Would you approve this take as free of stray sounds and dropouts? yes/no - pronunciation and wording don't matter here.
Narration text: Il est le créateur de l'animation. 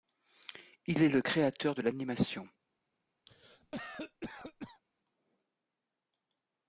no